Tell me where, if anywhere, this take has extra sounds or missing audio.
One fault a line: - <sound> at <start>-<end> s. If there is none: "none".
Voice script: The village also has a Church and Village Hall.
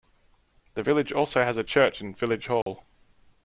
- dropout at 2.6-2.7 s